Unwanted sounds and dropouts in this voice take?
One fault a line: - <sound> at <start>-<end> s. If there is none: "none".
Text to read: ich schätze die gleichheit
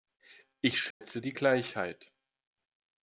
- dropout at 0.9-1.0 s